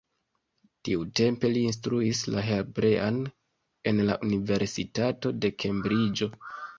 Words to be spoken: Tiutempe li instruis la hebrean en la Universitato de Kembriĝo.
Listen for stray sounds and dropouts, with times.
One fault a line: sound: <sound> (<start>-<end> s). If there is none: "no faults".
no faults